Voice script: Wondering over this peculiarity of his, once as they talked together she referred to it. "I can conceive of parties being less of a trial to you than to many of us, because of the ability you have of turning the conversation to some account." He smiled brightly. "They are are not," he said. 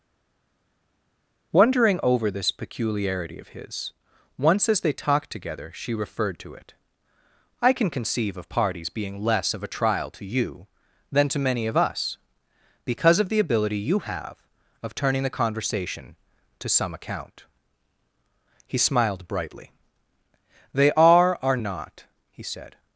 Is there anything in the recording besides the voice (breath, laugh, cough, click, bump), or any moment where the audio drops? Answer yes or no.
no